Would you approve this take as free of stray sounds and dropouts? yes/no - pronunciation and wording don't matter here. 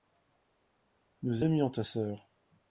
yes